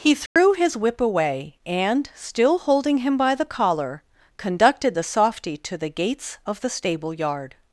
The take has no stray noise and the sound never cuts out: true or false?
false